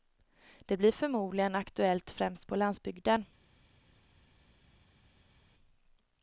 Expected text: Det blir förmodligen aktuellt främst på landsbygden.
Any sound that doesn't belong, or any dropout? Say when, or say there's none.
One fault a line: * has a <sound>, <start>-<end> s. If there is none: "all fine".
all fine